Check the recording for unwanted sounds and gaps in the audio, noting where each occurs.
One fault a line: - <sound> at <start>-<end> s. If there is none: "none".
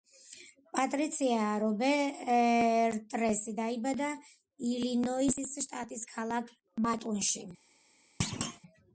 - thud at 8.2-8.6 s